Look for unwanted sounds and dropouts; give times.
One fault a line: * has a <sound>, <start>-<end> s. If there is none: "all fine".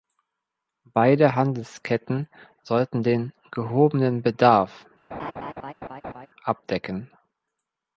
* has a laugh, 5.1-6.3 s